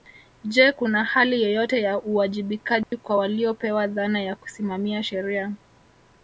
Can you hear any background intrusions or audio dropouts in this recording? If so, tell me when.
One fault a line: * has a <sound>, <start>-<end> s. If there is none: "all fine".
* has a dropout, 2.8-2.9 s